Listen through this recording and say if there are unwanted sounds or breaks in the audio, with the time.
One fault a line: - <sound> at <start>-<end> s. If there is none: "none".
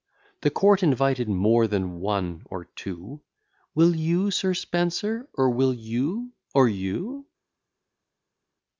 none